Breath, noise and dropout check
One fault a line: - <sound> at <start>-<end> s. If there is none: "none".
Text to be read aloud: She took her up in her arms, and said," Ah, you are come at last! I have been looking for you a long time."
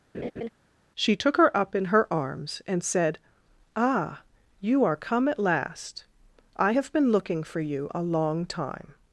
- laugh at 0.1-0.5 s